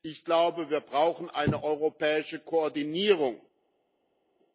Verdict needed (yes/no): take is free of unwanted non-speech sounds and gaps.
yes